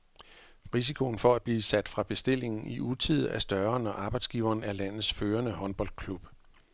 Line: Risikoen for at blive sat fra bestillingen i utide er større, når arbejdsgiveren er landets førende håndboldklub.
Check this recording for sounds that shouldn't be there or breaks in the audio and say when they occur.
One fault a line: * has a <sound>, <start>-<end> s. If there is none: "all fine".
all fine